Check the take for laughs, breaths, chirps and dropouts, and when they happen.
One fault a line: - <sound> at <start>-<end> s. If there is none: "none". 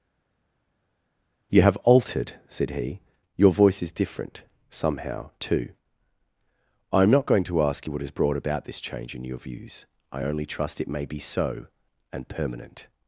none